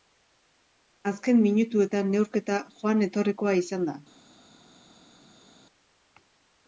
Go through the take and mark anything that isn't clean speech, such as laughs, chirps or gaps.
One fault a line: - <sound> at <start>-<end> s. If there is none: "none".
none